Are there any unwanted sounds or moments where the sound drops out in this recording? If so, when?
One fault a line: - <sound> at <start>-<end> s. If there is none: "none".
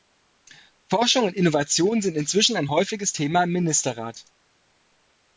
none